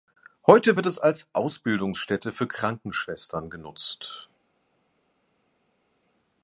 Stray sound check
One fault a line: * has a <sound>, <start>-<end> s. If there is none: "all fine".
all fine